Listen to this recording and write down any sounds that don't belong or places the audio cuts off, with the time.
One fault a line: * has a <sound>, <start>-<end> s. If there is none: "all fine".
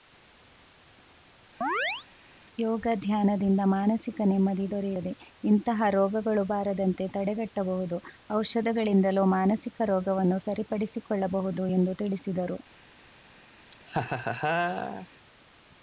* has a chirp, 1.6-2.1 s
* has a laugh, 13.7-15.1 s